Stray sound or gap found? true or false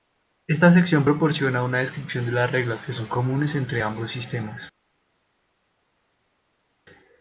false